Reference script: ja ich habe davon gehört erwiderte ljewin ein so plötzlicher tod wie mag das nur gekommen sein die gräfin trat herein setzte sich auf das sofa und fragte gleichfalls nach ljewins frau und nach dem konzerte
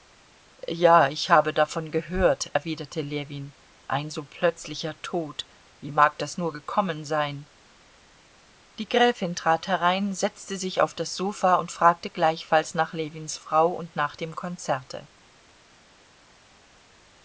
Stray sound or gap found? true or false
false